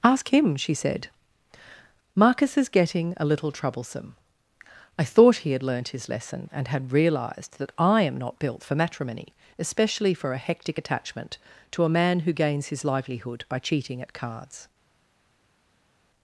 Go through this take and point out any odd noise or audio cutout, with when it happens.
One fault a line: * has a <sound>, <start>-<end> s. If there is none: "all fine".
all fine